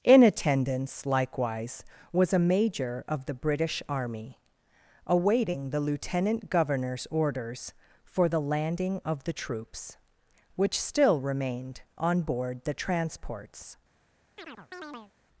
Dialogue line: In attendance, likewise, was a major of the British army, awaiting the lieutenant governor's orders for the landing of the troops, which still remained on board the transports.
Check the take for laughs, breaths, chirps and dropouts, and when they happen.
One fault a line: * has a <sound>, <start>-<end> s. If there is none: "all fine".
* has a chirp, 14.4-15.1 s